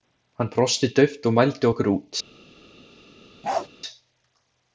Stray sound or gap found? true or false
true